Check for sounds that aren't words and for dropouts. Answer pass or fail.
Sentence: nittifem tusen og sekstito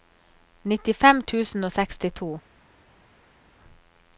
pass